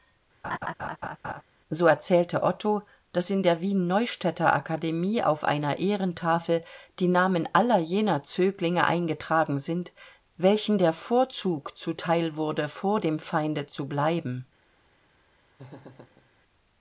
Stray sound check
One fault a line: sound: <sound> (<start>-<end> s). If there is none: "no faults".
sound: laugh (0.4-1.4 s)
sound: laugh (15.6-16.3 s)